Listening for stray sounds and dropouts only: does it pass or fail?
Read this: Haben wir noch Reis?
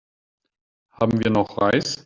pass